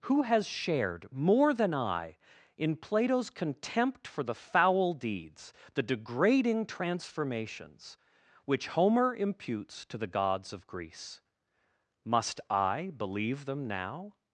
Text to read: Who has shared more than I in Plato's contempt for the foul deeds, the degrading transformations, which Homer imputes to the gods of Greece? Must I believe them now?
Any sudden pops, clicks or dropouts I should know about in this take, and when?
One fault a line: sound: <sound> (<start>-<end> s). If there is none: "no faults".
no faults